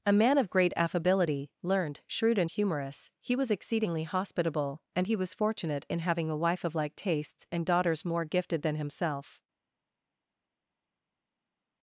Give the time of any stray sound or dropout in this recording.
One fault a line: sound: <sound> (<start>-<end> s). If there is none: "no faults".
no faults